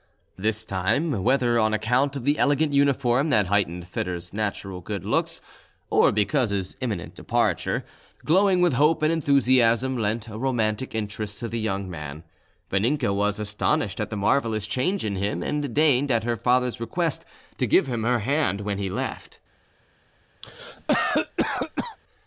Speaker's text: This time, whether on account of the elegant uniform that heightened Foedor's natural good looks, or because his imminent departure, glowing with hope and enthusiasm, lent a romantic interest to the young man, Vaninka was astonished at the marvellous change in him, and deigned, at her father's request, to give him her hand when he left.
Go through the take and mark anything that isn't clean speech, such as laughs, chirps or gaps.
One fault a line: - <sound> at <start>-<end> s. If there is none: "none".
- cough at 20.4-22.0 s